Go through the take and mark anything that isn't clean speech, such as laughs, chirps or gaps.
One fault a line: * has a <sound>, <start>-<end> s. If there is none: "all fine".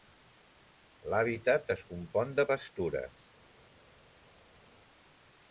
all fine